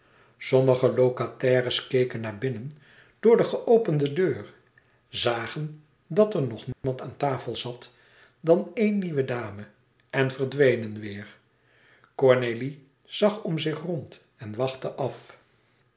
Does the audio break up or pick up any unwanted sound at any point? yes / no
yes